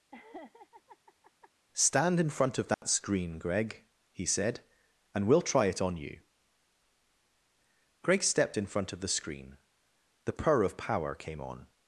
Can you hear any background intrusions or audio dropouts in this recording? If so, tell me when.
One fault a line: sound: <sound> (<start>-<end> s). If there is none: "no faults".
sound: laugh (0.1-1.5 s)
sound: dropout (2.7-2.8 s)